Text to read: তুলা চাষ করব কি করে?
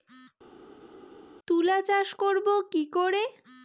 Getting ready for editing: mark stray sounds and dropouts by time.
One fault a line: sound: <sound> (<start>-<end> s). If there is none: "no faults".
no faults